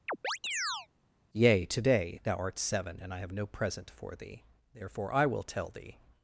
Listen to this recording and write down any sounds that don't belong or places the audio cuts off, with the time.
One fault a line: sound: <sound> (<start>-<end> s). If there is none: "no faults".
sound: chirp (0.1-0.9 s)